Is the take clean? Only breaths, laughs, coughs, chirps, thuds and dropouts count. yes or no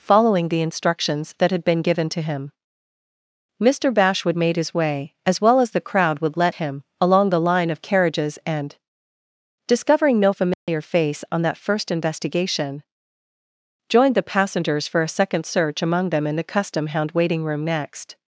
no